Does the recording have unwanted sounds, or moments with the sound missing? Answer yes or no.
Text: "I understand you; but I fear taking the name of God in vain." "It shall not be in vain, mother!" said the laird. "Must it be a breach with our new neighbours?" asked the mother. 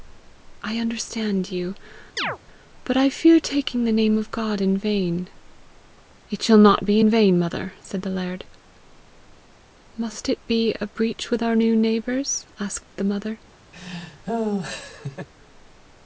yes